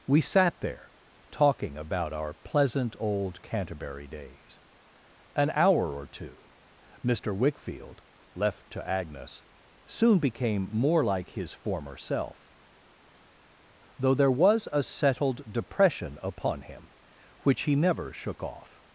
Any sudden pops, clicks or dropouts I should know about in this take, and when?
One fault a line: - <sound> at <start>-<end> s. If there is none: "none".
none